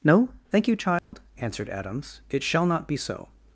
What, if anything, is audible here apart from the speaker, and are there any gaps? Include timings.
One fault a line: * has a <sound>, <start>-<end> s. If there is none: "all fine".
* has a dropout, 1.0-1.1 s